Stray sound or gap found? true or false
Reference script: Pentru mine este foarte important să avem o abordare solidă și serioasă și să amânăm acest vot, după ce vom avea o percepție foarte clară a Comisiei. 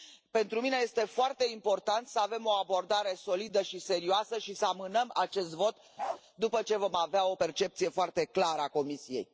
true